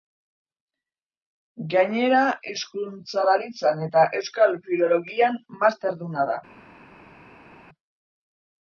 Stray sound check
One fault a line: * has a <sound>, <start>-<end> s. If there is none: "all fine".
all fine